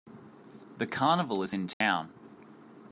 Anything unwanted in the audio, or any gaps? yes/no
yes